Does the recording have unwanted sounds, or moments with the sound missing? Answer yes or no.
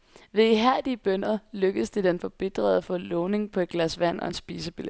no